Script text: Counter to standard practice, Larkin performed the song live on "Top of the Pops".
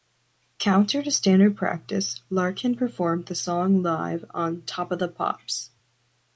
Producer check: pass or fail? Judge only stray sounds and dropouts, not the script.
pass